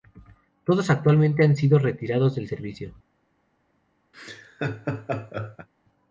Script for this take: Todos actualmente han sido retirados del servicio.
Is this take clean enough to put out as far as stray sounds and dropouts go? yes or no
no